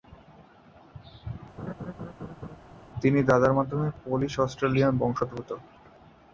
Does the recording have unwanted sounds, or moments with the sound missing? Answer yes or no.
yes